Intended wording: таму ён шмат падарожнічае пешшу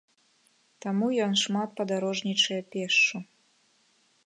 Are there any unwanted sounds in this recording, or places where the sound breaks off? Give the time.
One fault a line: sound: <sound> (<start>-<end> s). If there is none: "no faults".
no faults